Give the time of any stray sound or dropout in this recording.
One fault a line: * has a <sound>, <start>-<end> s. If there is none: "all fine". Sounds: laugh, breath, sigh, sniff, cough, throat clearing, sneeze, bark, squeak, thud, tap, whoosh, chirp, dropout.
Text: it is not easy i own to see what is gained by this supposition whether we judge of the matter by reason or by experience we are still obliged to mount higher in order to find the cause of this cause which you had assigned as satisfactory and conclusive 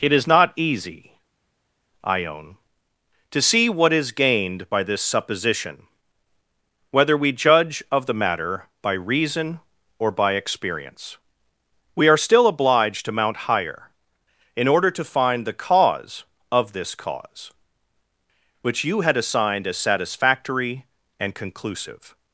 all fine